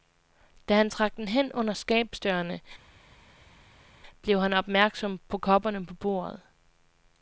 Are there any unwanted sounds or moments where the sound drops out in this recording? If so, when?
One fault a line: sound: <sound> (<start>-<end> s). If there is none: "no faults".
no faults